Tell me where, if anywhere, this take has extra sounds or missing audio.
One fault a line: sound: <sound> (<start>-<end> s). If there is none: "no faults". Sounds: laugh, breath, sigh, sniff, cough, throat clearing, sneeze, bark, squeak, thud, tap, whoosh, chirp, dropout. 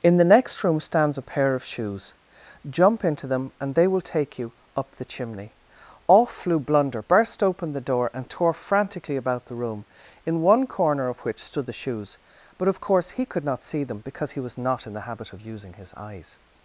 no faults